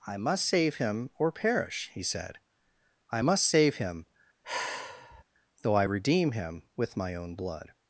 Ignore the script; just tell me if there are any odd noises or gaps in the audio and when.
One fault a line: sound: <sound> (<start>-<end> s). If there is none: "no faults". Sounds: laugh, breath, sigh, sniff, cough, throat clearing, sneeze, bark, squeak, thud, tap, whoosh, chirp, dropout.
sound: sigh (4.4-5.2 s)